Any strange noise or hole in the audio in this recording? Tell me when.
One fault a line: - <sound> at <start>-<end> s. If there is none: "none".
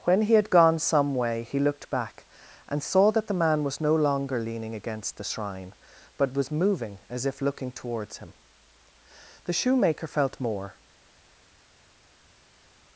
none